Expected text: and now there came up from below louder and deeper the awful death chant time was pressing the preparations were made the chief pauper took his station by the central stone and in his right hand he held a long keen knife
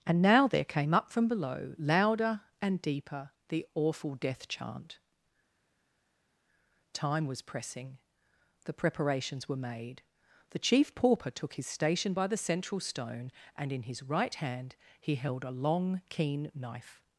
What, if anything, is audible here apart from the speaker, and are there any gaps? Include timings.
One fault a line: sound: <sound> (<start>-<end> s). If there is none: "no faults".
no faults